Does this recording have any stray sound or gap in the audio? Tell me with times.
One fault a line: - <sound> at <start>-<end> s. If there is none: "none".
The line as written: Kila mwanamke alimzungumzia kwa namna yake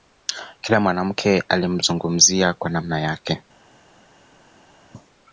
none